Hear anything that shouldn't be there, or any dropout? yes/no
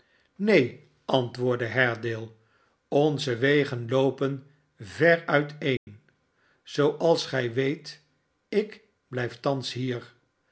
yes